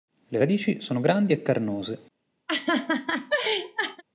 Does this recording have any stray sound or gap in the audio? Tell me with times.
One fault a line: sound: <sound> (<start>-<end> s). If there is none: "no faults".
sound: laugh (2.5-4.0 s)